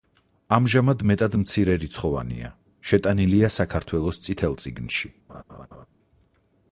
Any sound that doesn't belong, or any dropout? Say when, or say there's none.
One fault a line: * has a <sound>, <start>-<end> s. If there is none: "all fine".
* has a laugh, 5.3-5.9 s